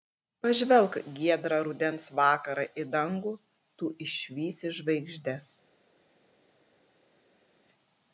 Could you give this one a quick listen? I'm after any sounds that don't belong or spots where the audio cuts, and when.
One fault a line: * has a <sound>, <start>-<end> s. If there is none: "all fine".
all fine